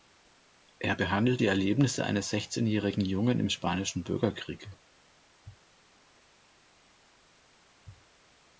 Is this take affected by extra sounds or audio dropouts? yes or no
no